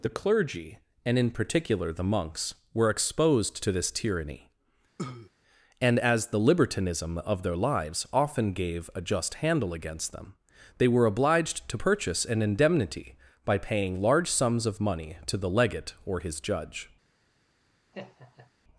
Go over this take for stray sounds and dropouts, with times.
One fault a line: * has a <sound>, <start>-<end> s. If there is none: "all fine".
* has a cough, 5.0-5.3 s
* has a laugh, 17.9-18.5 s